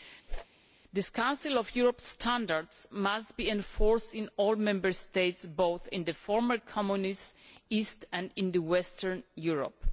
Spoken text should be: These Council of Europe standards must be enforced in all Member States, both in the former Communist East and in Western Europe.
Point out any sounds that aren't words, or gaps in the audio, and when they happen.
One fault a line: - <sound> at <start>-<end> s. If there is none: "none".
- whoosh at 0.3-0.5 s